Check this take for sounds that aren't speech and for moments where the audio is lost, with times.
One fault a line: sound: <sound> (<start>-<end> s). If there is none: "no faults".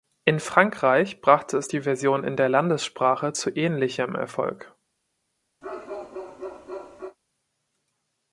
sound: bark (5.6-7.2 s)